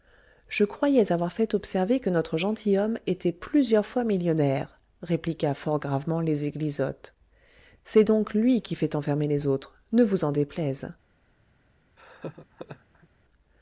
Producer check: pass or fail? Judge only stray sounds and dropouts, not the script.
fail